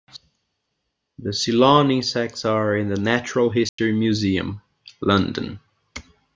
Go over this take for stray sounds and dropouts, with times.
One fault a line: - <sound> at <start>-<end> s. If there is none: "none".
- dropout at 3.7-3.8 s